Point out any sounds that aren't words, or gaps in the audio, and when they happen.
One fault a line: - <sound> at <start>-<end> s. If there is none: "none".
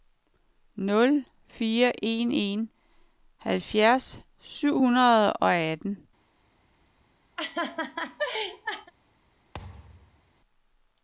- laugh at 7.4-8.9 s
- thud at 9.5-10.3 s